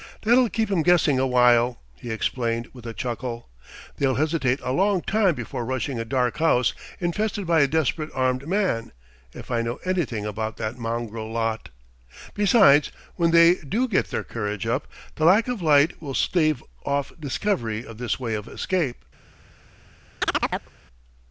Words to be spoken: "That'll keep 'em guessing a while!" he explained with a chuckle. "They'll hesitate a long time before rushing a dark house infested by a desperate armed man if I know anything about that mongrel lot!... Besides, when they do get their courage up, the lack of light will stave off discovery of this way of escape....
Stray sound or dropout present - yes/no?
yes